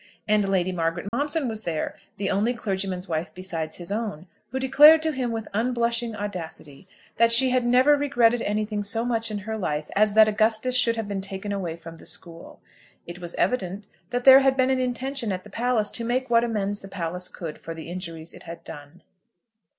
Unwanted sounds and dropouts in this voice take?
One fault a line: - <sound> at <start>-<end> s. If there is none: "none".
- dropout at 1.1-1.1 s